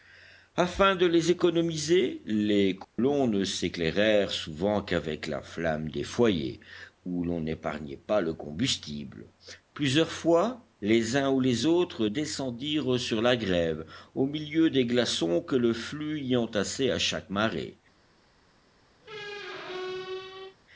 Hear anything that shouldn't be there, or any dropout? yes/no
yes